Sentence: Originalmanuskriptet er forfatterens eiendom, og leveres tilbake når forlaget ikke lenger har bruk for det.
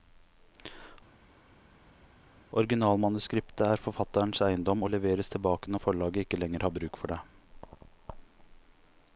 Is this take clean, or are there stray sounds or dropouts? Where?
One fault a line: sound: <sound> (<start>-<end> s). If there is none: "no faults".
no faults